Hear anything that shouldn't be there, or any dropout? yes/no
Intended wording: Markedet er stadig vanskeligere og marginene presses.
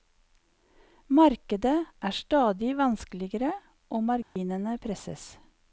yes